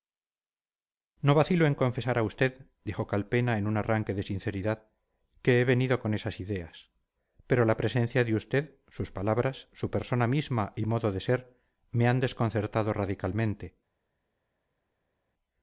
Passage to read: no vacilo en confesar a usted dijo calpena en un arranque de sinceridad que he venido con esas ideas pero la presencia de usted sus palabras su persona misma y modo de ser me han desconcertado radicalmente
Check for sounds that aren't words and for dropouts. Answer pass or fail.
pass